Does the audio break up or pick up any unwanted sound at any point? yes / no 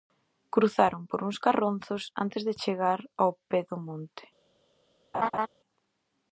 yes